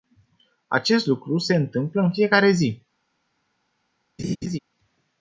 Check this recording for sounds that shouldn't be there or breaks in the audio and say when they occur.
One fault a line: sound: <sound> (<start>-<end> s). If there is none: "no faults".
sound: laugh (4.2-4.6 s)